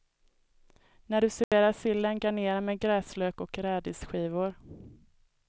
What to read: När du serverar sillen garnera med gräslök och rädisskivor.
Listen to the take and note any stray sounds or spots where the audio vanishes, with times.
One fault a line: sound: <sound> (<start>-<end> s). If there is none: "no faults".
sound: dropout (1.4-1.5 s)